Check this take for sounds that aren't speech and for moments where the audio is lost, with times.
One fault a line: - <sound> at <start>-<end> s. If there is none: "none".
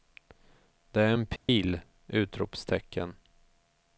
- dropout at 1.4-1.5 s